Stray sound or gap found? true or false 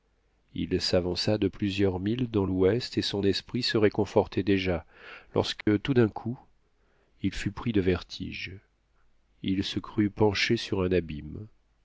true